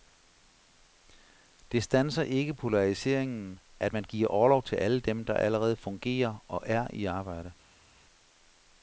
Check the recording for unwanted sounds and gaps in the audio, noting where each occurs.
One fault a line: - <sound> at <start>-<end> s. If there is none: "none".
none